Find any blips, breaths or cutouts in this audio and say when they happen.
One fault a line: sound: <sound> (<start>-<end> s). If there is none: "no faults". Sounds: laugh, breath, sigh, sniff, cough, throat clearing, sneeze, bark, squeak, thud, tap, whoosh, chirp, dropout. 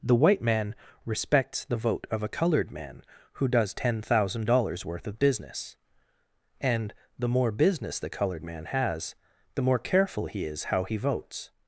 no faults